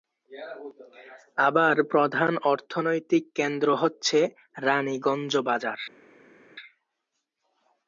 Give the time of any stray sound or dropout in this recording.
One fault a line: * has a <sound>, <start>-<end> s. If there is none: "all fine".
all fine